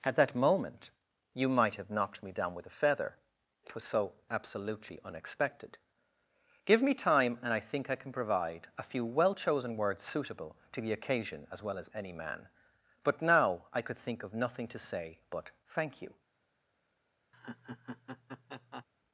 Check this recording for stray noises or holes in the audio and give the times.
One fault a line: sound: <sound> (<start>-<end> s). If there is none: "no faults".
sound: laugh (17.3-18.8 s)